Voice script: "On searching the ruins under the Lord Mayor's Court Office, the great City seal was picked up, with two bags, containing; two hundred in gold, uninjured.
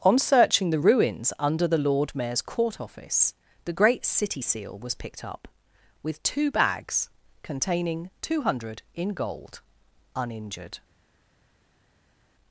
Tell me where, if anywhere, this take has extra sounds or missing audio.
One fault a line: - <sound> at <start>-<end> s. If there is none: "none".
none